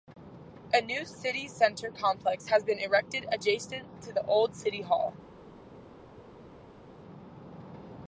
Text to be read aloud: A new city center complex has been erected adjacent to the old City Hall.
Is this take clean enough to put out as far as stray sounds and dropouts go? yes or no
yes